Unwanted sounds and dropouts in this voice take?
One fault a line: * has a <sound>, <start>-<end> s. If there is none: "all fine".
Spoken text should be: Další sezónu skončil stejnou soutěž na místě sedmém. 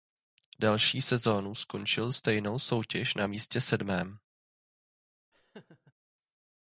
* has a laugh, 5.3-5.9 s